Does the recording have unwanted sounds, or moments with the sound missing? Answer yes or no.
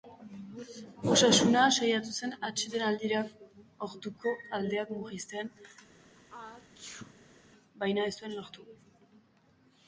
yes